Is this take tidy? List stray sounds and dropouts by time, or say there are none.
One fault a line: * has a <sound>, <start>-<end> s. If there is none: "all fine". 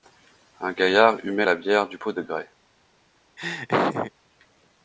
* has a laugh, 3.4-4.1 s